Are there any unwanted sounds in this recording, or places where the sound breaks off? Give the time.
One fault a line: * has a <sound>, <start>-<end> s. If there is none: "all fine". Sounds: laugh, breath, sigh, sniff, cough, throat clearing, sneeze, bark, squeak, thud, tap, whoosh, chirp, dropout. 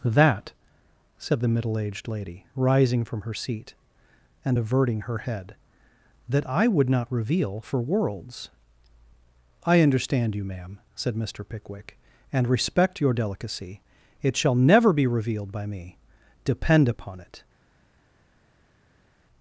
all fine